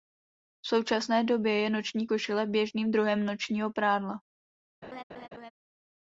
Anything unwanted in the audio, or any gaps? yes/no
yes